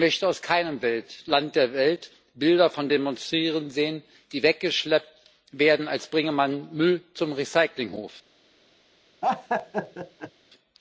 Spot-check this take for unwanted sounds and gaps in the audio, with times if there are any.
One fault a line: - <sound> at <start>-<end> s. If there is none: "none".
- laugh at 9.2-10.3 s